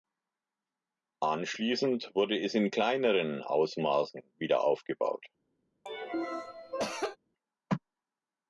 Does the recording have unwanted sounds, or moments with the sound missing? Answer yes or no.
yes